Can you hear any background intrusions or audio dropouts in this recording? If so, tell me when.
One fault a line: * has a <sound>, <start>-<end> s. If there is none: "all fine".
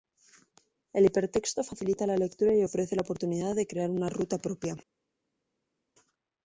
all fine